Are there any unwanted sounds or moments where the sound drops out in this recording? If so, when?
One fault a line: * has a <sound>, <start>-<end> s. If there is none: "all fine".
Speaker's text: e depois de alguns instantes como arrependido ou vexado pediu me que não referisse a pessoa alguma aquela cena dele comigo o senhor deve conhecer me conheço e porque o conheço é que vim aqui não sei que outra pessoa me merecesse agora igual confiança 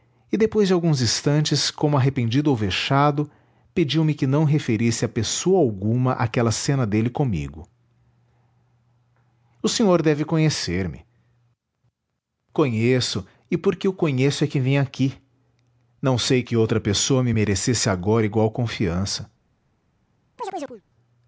* has a chirp, 20.4-20.8 s